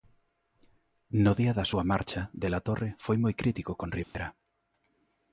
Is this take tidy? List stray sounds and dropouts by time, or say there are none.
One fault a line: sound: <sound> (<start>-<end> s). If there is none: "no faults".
sound: dropout (4.0-4.1 s)